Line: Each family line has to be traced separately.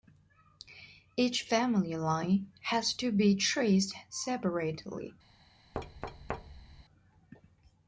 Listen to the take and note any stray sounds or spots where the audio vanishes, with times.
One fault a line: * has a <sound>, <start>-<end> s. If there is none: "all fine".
* has a thud, 5.7-6.8 s